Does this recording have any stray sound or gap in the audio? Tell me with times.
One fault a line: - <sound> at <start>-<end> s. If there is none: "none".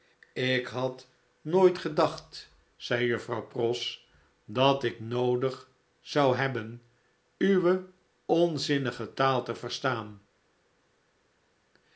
none